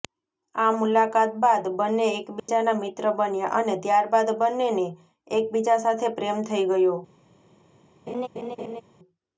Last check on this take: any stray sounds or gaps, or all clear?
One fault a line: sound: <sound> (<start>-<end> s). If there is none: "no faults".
sound: dropout (2.4-2.5 s)
sound: laugh (8.1-8.8 s)